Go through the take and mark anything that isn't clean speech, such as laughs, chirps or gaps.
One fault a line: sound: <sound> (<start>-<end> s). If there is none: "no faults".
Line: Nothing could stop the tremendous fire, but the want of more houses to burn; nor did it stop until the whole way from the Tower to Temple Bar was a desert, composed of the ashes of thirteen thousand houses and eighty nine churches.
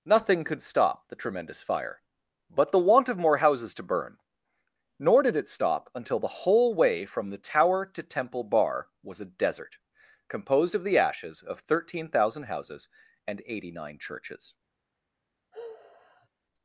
sound: sigh (15.5-16.3 s)